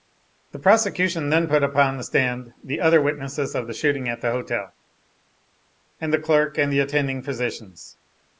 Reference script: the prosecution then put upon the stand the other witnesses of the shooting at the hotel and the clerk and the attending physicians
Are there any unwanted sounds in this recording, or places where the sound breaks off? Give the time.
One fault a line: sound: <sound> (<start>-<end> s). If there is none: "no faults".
no faults